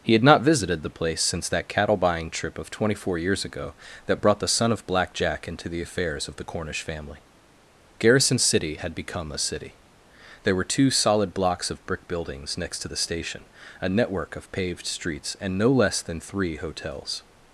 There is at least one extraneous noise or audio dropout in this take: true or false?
false